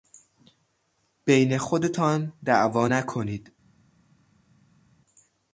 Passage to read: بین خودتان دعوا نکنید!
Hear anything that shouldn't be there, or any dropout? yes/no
no